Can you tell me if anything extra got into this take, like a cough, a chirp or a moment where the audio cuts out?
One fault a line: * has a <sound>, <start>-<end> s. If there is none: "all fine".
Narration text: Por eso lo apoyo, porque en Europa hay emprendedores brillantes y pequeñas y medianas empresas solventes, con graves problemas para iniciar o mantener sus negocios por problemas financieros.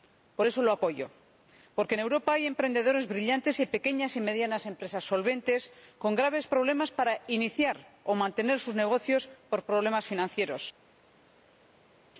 all fine